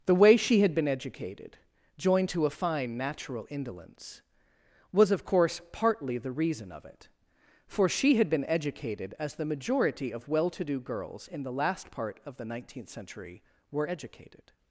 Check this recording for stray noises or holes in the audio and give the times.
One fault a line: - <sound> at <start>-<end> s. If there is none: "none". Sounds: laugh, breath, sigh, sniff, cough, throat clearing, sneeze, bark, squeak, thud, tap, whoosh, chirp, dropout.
none